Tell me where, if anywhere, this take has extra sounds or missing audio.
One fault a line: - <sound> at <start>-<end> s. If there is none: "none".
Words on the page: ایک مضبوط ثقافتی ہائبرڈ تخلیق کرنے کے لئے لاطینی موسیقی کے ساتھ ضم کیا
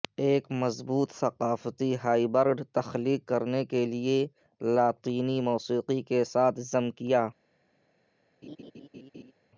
- laugh at 8.4-9.3 s